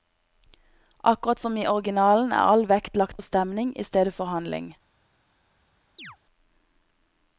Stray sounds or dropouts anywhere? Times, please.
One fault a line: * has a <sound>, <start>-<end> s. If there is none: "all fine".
* has a chirp, 6.0-6.2 s